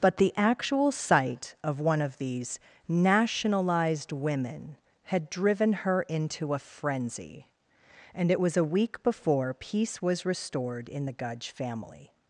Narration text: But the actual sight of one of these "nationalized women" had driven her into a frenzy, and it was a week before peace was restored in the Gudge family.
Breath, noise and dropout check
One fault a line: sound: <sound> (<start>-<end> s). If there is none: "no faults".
no faults